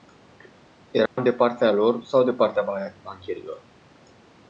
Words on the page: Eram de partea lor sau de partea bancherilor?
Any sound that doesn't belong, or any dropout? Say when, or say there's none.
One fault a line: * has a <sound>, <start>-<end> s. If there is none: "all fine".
* has a dropout, 1.1-1.2 s